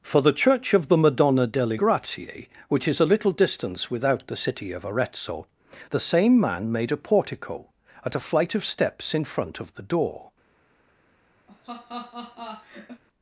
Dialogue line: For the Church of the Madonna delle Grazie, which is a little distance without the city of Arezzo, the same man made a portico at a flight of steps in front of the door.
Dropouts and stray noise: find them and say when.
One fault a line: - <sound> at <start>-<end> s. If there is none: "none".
- laugh at 11.5-13.0 s